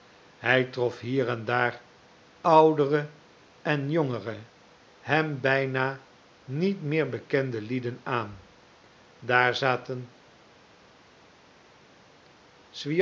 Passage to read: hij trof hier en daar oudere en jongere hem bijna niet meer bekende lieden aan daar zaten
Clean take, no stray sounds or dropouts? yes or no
yes